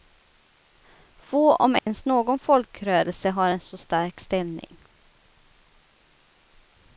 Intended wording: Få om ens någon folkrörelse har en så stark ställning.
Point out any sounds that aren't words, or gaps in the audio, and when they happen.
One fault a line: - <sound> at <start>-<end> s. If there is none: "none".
- dropout at 1.8-1.9 s